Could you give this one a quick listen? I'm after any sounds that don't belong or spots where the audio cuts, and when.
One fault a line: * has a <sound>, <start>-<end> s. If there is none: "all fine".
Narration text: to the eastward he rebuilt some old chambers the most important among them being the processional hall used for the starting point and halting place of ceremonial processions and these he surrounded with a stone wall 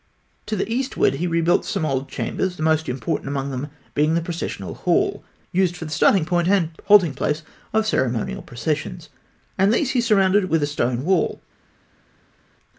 all fine